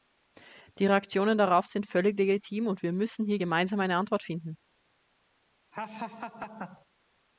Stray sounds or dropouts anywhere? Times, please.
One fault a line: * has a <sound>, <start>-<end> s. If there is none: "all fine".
* has a laugh, 5.7-6.9 s